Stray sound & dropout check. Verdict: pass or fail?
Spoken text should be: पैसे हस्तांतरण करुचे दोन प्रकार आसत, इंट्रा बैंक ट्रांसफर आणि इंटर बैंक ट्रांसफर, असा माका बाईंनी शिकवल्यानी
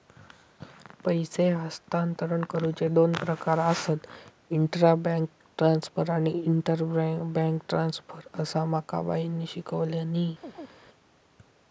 fail